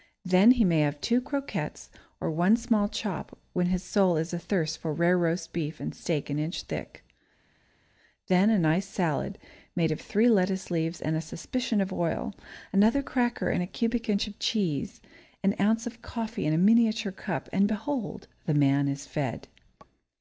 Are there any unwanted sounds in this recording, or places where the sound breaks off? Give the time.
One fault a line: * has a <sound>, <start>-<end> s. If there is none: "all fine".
all fine